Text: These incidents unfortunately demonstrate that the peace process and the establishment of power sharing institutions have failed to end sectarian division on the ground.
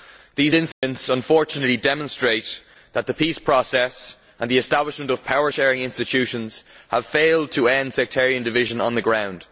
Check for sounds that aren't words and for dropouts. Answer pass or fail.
fail